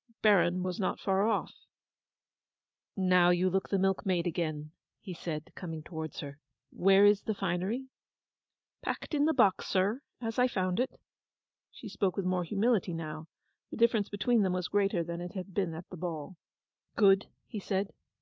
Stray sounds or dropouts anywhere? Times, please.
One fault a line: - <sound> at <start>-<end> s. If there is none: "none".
none